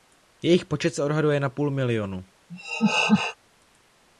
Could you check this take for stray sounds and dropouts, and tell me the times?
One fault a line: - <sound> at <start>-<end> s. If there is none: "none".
- laugh at 2.5-3.4 s